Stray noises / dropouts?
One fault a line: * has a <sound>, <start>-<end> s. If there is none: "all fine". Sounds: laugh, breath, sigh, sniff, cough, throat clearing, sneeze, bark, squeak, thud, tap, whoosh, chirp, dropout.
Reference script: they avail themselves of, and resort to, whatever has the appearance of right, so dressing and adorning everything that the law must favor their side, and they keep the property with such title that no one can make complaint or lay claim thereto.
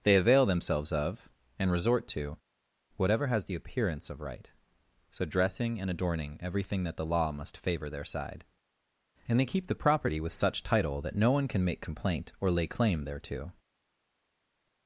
all fine